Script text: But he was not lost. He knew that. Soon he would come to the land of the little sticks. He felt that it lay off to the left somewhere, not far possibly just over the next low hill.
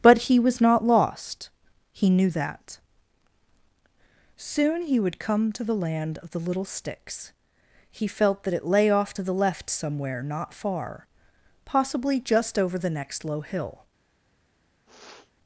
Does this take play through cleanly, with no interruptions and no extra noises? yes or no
no